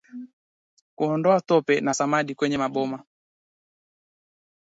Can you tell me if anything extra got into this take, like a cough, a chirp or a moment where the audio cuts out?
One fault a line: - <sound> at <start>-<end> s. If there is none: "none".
none